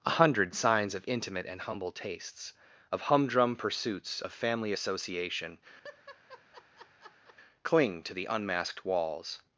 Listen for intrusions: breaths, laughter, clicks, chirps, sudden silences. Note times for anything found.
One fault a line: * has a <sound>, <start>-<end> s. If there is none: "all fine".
* has a laugh, 5.8-7.4 s